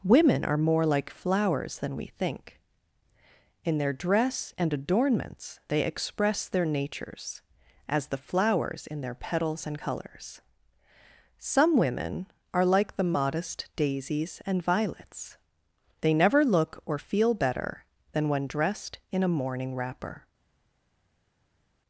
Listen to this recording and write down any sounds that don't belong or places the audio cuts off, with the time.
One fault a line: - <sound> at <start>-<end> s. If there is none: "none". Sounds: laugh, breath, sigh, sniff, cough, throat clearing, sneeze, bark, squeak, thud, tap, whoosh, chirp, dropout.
none